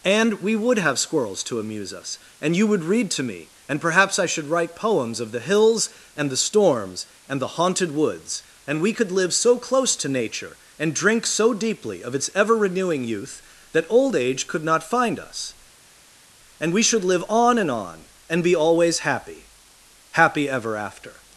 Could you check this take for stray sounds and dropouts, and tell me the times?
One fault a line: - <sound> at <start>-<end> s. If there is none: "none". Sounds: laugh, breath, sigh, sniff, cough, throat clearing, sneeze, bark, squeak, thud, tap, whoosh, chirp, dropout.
none